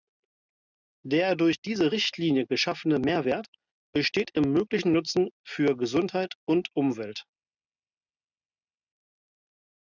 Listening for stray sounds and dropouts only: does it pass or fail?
pass